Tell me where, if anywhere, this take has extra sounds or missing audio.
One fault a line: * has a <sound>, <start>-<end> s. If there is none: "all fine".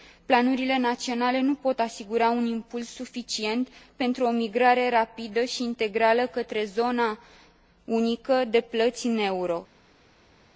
all fine